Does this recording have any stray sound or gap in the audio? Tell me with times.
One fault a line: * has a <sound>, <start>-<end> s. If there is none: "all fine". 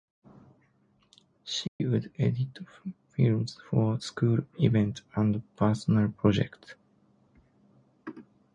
* has a dropout, 1.7-1.8 s